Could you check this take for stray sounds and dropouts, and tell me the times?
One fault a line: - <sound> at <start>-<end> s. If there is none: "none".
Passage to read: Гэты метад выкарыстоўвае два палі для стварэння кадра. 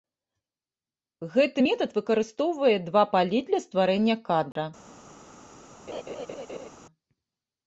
- dropout at 4.5-4.6 s
- laugh at 5.9-6.7 s